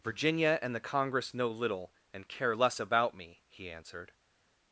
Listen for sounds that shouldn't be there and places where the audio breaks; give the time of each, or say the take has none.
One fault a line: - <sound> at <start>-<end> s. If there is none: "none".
none